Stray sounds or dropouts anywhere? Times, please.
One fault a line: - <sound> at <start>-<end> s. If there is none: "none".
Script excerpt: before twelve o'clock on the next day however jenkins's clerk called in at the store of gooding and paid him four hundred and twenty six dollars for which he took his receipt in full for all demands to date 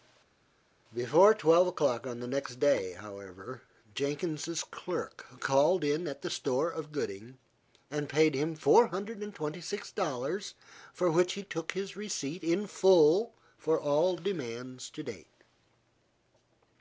none